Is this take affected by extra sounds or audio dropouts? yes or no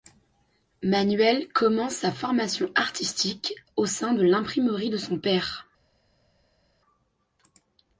no